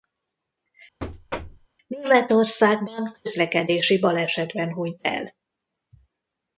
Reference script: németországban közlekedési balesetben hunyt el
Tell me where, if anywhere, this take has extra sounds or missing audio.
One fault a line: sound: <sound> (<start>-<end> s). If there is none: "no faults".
sound: thud (1.0-1.7 s)